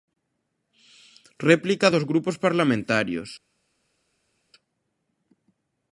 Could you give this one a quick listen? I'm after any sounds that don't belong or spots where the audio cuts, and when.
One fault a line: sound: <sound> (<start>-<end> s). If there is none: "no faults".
no faults